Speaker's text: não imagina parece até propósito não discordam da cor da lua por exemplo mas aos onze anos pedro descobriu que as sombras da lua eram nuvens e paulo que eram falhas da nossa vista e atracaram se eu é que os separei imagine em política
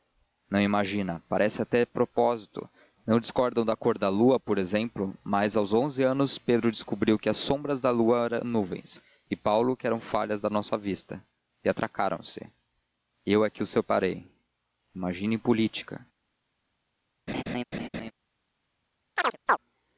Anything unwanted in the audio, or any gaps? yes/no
yes